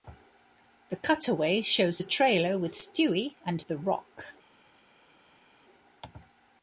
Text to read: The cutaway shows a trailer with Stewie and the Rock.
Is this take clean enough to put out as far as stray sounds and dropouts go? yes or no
yes